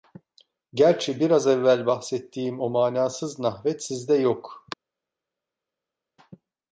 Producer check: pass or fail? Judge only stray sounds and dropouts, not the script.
pass